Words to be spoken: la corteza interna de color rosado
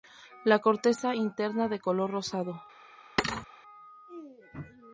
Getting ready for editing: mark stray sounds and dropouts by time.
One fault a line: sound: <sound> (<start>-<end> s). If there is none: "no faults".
sound: thud (3.2-3.5 s)